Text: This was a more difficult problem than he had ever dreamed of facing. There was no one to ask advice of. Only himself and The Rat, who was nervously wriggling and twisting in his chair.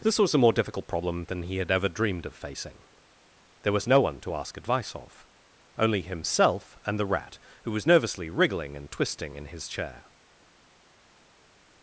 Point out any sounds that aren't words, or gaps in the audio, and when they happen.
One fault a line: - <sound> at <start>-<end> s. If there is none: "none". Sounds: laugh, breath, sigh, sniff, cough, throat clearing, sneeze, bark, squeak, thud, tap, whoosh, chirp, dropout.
none